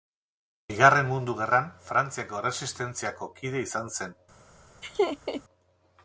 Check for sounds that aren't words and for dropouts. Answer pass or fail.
fail